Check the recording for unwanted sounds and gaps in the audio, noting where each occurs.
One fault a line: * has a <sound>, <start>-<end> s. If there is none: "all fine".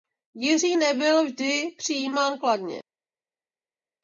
all fine